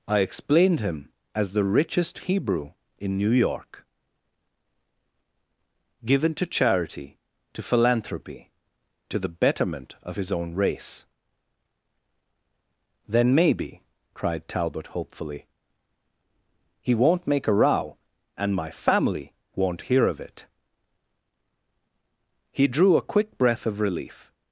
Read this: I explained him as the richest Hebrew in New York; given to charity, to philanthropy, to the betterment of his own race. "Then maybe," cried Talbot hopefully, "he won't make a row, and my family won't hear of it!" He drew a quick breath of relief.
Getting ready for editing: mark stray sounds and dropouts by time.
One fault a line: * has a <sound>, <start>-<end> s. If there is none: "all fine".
all fine